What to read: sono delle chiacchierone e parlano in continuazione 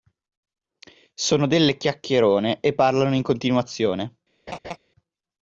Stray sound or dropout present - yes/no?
yes